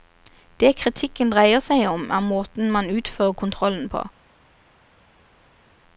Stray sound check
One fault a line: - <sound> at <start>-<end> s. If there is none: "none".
none